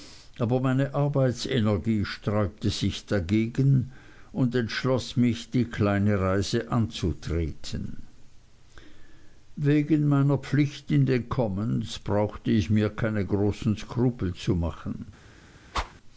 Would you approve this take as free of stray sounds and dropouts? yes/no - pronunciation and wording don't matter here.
no